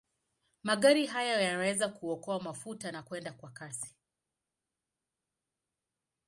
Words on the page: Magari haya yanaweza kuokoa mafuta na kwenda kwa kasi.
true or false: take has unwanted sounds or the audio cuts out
false